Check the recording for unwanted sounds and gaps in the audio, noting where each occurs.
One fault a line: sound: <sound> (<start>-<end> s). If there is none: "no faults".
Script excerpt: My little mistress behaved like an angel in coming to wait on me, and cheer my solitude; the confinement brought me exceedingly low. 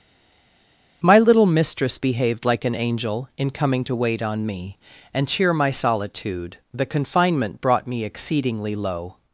no faults